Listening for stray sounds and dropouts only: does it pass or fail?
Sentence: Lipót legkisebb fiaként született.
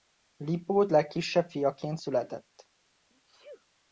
fail